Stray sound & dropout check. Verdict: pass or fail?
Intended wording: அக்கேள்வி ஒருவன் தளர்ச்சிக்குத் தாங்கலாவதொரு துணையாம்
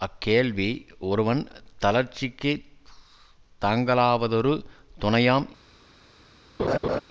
fail